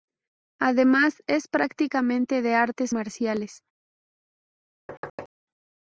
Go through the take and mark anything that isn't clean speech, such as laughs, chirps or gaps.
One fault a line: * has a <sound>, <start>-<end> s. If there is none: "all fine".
* has a thud, 4.9-5.3 s